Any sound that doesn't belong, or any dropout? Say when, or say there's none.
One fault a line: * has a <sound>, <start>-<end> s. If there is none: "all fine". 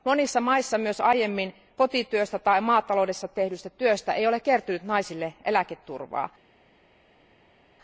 all fine